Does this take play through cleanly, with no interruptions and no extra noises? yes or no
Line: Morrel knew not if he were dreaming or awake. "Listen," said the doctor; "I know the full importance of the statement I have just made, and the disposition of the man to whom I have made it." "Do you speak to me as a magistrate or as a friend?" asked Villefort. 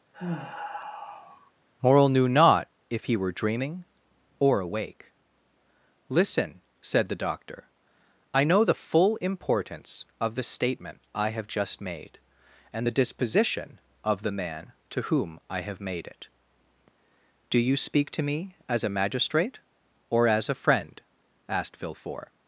no